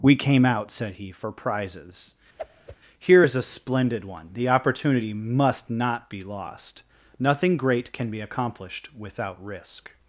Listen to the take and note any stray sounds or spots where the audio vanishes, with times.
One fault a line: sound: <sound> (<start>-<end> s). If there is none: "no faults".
sound: whoosh (2.4-2.8 s)